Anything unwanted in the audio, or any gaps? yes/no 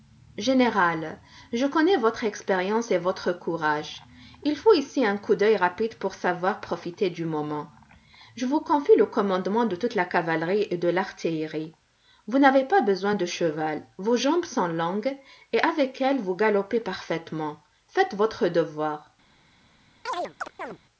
yes